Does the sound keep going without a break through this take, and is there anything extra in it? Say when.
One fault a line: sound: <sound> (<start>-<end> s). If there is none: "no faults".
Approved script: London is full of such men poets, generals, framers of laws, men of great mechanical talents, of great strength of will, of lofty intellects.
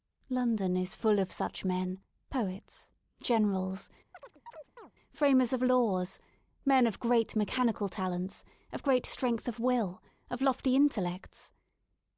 sound: chirp (4.1-4.9 s)